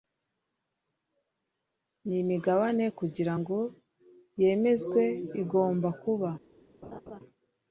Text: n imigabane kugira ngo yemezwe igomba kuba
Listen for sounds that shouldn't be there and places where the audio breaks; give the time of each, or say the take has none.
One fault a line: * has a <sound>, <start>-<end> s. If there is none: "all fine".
* has a laugh, 6.8-7.2 s